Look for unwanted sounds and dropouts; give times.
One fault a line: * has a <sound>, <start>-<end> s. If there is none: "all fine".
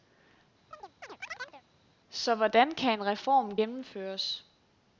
* has a chirp, 0.7-1.6 s